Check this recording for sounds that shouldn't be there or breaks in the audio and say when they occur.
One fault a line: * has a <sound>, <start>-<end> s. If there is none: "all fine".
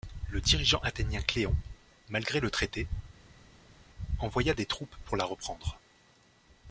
all fine